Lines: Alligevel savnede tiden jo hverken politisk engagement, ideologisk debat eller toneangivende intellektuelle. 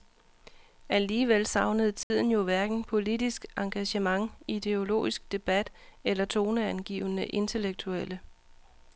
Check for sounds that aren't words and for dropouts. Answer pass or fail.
fail